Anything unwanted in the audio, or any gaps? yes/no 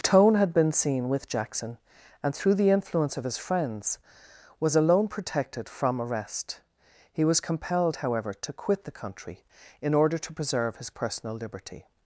no